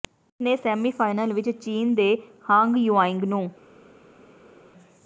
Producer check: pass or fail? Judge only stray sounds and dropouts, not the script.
pass